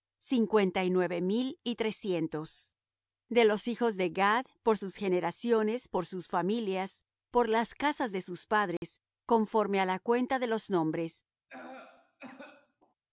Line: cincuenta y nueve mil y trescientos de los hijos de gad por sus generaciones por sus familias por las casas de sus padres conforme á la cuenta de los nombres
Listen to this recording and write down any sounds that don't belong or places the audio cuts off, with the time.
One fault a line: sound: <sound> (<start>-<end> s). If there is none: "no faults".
sound: dropout (8.8-8.8 s)
sound: cough (11.5-12.9 s)